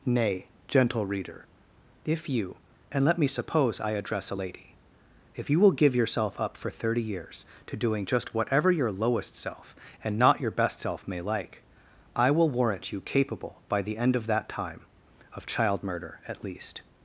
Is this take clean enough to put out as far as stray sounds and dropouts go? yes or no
yes